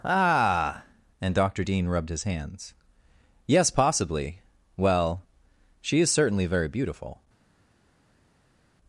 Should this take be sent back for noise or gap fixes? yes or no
no